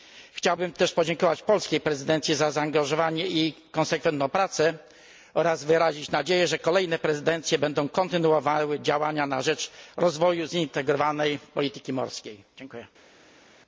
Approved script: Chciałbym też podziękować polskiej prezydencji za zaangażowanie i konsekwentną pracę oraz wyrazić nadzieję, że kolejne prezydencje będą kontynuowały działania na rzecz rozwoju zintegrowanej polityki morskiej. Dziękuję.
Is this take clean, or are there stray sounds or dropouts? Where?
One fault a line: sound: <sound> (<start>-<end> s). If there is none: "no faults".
no faults